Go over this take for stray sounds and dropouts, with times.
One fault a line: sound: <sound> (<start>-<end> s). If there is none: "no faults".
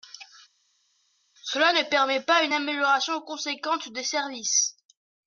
no faults